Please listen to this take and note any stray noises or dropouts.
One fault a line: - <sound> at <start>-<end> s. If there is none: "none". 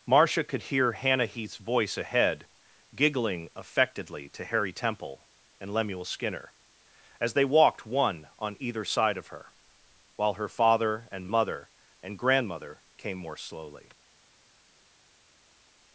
none